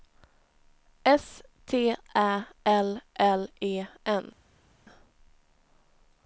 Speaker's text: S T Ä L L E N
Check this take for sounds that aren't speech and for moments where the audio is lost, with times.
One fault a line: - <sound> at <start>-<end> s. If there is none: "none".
none